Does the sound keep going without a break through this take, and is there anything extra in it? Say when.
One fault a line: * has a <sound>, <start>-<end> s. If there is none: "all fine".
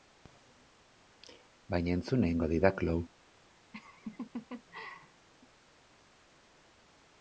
* has a laugh, 3.7-5.3 s